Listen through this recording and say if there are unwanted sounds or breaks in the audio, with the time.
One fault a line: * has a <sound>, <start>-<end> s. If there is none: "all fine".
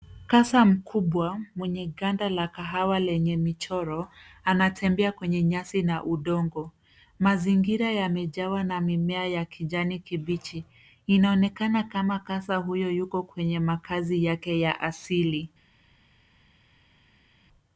all fine